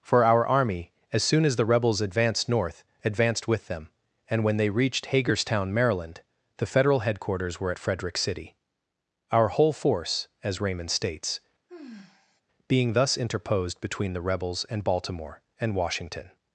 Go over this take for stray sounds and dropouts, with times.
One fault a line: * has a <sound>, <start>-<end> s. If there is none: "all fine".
* has a sigh, 11.7-12.4 s